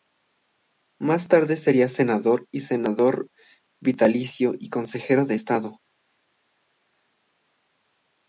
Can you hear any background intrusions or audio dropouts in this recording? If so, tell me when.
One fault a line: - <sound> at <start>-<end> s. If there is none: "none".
none